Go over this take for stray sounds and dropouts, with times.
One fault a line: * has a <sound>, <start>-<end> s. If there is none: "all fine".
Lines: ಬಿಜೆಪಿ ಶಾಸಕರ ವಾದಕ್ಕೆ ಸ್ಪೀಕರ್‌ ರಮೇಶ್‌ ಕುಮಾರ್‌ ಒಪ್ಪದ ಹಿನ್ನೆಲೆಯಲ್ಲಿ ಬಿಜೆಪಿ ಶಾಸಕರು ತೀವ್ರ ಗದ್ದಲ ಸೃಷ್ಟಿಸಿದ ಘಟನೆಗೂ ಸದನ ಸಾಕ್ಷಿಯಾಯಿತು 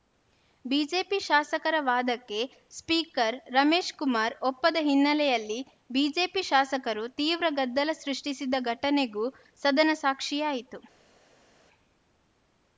all fine